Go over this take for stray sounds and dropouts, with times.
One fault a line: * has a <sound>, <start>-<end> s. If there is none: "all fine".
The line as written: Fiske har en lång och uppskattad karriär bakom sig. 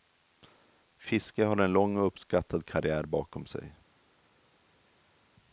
all fine